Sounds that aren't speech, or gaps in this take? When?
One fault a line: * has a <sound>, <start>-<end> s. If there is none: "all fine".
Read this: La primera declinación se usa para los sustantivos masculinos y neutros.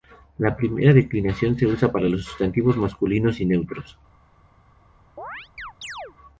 * has a chirp, 5.2-6.2 s